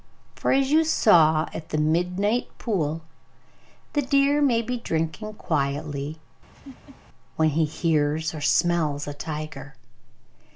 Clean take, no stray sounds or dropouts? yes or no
no